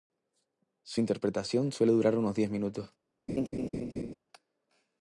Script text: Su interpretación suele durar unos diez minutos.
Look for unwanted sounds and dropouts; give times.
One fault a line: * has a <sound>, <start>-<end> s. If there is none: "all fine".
* has a laugh, 3.3-4.1 s